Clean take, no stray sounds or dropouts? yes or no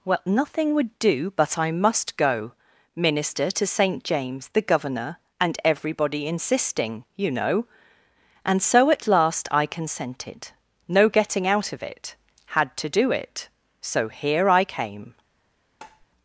no